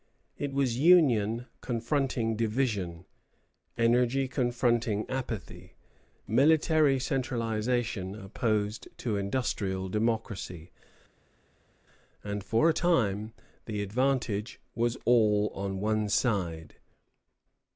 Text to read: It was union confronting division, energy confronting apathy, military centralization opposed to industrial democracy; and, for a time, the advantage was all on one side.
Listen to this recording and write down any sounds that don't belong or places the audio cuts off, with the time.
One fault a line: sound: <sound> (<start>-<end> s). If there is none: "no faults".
no faults